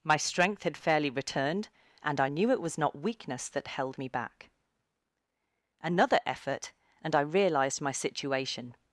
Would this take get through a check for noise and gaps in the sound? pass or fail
pass